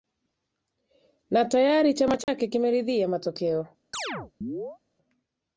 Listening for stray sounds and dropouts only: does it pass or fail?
fail